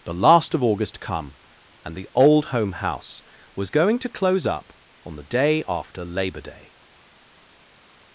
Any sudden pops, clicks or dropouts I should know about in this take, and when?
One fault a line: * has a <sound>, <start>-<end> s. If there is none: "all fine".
all fine